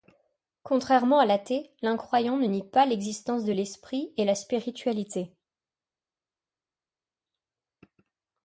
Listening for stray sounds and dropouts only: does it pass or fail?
pass